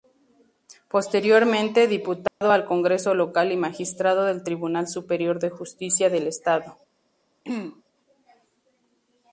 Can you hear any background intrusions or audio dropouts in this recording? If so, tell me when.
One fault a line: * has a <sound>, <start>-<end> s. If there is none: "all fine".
* has a dropout, 2.3-2.4 s
* has a throat clearing, 7.4-7.8 s